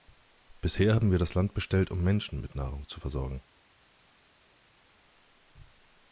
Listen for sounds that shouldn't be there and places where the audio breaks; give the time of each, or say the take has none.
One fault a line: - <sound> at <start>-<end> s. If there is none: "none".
none